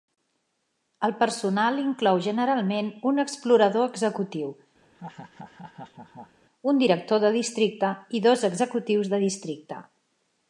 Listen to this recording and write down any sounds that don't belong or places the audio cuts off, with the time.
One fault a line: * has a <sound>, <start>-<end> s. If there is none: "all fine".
* has a laugh, 4.8-6.4 s